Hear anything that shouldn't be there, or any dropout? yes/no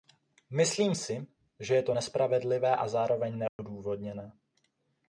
yes